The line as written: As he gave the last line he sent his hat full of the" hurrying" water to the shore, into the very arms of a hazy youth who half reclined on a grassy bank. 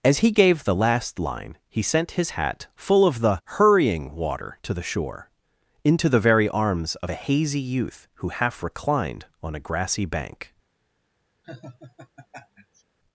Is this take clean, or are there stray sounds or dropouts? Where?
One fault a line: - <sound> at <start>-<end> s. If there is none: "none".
- laugh at 11.4-12.8 s